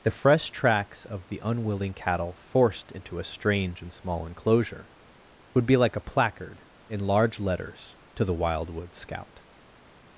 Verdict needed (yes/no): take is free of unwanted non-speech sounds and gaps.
yes